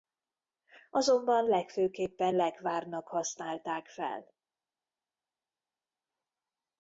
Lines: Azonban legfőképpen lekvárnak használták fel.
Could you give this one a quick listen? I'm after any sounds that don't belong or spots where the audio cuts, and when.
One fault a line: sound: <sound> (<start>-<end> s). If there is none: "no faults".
no faults